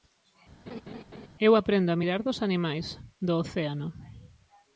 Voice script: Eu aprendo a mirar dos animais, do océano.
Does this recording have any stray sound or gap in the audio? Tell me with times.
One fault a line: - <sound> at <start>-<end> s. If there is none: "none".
- laugh at 0.7-1.3 s